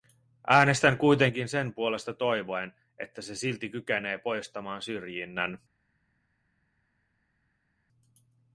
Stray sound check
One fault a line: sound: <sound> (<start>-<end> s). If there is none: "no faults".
no faults